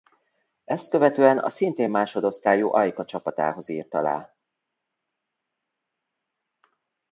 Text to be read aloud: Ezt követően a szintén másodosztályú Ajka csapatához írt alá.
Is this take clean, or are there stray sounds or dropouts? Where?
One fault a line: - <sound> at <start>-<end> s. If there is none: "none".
none